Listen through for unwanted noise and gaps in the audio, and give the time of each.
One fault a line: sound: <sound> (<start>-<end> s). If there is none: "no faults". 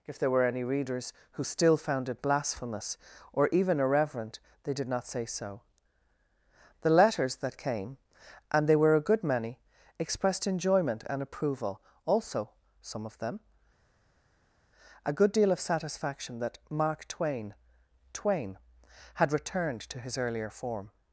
no faults